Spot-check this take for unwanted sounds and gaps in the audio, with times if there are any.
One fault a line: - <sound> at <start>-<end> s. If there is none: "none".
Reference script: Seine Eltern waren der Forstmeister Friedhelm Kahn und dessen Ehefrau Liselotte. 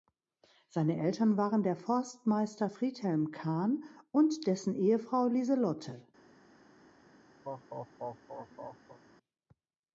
- laugh at 7.4-9.0 s